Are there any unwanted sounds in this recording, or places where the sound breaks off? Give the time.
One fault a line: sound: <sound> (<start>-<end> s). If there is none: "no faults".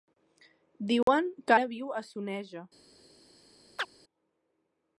sound: dropout (1.0-1.1 s)
sound: chirp (3.8-3.9 s)